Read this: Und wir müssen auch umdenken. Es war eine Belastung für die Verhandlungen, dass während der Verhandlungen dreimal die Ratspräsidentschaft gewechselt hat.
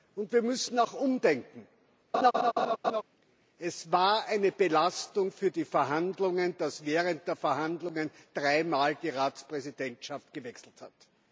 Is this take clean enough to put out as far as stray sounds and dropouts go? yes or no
no